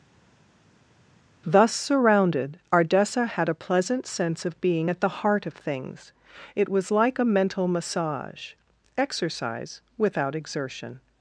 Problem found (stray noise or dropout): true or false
false